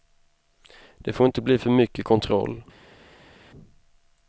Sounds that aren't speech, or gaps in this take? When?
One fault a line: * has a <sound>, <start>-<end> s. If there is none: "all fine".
all fine